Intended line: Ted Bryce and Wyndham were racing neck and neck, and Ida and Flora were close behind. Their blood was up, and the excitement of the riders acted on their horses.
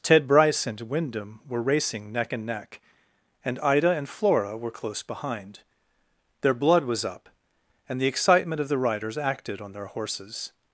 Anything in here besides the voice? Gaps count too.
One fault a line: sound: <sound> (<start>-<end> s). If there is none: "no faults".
no faults